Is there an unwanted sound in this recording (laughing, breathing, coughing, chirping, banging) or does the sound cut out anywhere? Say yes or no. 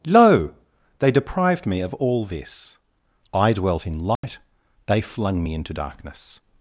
yes